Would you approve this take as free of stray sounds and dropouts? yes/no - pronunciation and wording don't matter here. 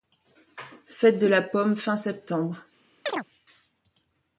no